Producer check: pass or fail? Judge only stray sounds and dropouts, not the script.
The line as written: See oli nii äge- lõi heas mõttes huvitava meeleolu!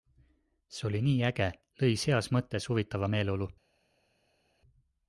pass